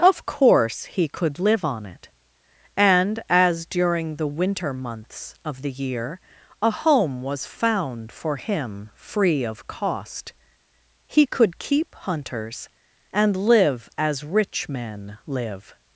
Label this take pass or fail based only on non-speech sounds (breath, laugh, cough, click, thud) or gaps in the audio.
pass